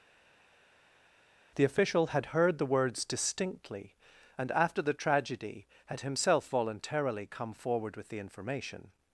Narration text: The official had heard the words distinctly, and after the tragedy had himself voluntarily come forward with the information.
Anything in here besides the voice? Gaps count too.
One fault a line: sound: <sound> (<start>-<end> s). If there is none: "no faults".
no faults